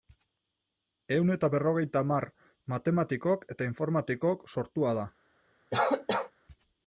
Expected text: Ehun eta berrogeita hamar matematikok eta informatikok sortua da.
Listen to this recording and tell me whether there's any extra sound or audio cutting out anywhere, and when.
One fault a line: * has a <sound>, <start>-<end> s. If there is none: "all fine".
* has a cough, 5.7-6.3 s